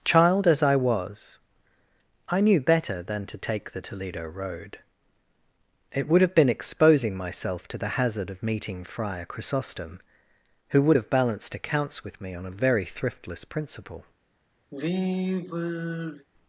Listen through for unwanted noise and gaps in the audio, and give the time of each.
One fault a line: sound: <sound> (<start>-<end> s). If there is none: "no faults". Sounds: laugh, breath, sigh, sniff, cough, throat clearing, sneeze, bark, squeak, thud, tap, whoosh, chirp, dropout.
sound: sigh (14.7-16.3 s)